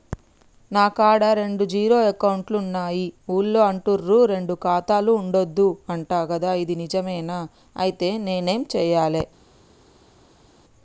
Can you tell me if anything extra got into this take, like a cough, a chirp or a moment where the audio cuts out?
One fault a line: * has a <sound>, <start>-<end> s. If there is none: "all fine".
all fine